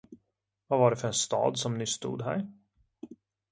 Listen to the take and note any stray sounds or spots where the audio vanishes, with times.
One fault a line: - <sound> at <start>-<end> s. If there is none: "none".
none